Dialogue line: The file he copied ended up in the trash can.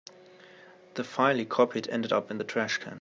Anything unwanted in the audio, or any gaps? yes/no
no